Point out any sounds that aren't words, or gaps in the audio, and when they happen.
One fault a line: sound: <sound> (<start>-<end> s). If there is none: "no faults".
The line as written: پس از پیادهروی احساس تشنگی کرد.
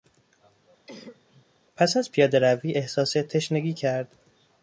sound: cough (0.9-1.5 s)